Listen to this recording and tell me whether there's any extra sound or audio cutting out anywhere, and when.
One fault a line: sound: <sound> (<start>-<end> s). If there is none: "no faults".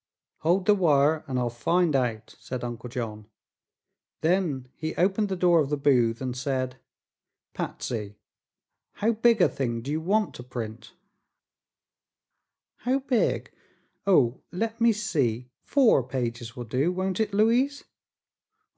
no faults